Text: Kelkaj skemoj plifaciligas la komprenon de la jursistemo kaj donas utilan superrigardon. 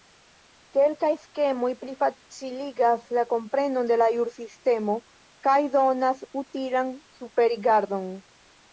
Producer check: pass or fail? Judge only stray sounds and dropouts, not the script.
pass